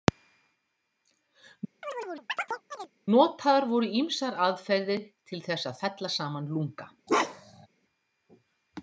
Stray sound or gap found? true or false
true